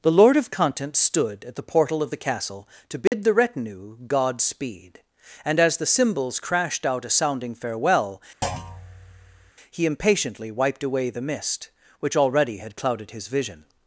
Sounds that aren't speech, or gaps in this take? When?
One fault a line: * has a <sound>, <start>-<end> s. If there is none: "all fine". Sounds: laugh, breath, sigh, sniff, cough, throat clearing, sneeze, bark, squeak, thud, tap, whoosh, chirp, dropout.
* has a dropout, 3.1-3.1 s
* has a thud, 8.4-9.5 s